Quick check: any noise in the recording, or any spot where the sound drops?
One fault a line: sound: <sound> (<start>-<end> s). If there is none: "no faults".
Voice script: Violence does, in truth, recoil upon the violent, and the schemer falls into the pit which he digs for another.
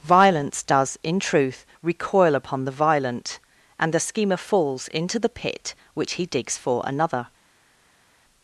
no faults